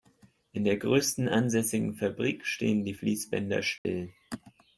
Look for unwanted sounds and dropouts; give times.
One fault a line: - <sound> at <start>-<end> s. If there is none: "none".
- dropout at 3.8-3.9 s